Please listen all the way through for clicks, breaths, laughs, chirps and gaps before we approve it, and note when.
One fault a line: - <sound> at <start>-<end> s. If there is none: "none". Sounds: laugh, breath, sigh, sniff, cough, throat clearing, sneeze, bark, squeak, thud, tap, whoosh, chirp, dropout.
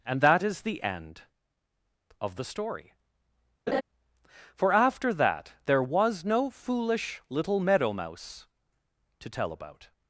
- laugh at 3.7-3.8 s